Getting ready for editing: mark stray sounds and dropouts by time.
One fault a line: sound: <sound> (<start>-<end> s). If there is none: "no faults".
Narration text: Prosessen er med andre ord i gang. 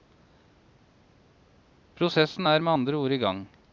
no faults